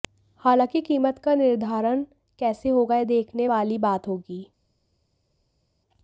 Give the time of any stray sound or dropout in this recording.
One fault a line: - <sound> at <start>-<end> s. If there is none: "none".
none